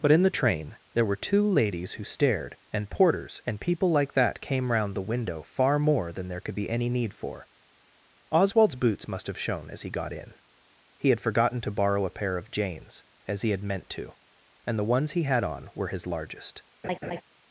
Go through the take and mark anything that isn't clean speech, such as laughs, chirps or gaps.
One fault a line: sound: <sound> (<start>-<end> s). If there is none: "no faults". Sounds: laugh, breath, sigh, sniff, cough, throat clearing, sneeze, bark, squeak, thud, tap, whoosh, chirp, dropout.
sound: laugh (16.8-17.2 s)